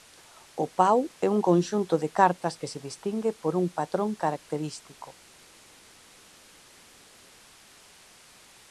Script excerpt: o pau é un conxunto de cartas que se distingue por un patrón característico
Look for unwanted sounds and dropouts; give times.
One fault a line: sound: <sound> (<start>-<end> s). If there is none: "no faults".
no faults